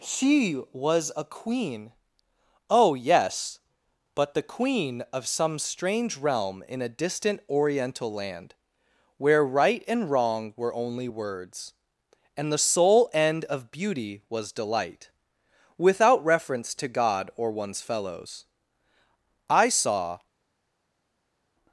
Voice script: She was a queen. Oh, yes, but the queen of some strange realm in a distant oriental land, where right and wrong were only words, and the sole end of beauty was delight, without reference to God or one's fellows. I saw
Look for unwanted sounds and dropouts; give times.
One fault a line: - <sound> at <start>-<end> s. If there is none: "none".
none